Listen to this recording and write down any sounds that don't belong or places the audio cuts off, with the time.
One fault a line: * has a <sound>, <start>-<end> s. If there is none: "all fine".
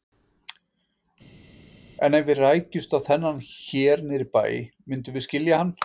all fine